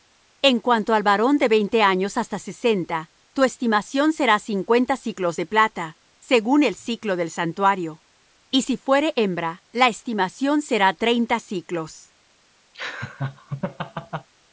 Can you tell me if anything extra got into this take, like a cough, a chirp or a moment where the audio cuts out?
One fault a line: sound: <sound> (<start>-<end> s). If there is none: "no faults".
sound: laugh (12.7-14.3 s)